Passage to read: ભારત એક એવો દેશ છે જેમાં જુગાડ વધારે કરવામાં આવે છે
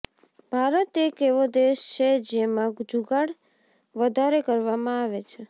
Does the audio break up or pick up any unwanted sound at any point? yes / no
no